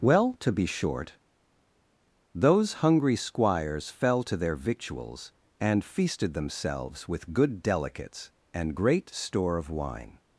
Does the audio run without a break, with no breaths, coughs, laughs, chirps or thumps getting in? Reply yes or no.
yes